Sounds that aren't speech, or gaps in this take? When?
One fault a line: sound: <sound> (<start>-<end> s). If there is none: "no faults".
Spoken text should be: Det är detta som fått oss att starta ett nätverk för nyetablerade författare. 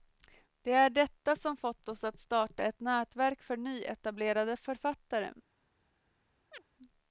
sound: chirp (6.5-6.6 s)